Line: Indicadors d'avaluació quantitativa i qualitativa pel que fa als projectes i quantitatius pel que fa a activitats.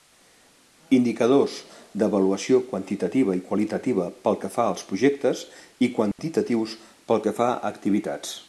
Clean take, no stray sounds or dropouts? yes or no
no